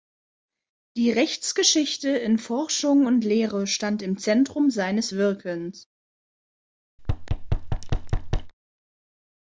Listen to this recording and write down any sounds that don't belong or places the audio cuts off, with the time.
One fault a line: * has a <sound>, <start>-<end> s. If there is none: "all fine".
* has a thud, 7.0-8.5 s